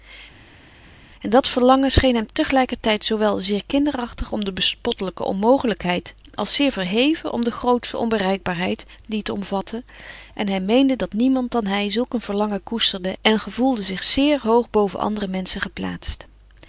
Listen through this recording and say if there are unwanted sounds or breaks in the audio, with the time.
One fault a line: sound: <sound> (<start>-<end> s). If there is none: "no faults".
no faults